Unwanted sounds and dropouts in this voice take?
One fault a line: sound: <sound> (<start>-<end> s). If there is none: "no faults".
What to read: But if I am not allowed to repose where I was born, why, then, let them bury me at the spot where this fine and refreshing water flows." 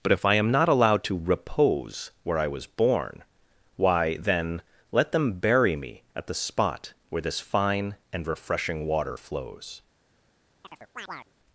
sound: chirp (10.6-11.3 s)